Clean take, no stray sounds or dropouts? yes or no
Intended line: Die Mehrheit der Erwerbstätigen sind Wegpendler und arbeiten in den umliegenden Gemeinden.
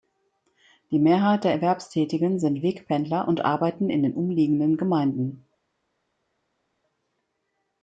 yes